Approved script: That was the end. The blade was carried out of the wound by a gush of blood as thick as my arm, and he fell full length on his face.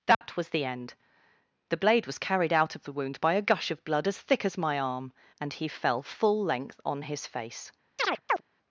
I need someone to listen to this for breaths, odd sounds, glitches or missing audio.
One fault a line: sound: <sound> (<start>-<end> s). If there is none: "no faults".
sound: dropout (0.1-0.2 s)
sound: chirp (8.0-8.4 s)